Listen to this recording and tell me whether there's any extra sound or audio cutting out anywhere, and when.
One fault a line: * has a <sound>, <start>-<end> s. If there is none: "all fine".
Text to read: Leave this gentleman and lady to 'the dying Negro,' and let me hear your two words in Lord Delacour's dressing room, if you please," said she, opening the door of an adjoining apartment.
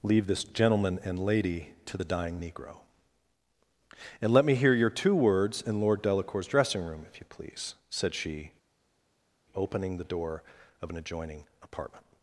all fine